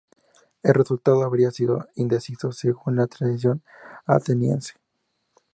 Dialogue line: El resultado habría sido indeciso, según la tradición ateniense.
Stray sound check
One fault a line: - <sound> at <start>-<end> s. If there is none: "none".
none